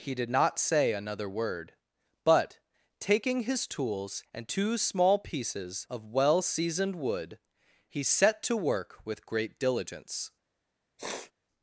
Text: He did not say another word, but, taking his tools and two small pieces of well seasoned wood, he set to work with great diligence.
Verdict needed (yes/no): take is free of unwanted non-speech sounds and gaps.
no